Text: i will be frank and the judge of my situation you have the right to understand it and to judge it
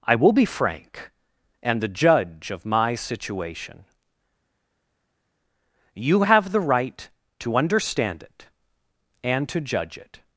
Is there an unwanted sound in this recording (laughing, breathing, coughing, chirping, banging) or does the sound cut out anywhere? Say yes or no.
no